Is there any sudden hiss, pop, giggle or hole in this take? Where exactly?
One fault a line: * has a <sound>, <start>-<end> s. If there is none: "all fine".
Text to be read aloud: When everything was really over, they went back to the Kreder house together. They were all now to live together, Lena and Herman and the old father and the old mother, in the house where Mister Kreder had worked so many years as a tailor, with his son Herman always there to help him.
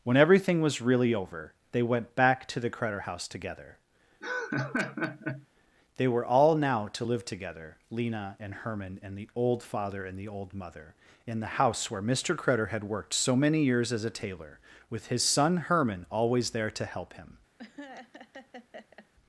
* has a laugh, 4.2-5.5 s
* has a laugh, 17.6-19.1 s